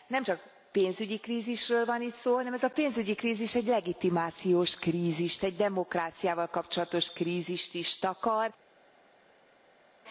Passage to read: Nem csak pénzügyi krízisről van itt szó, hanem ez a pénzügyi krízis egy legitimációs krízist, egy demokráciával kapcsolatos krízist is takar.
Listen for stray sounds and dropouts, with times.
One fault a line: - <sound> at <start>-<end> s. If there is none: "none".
none